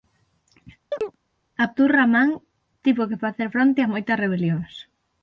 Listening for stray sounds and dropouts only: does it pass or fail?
fail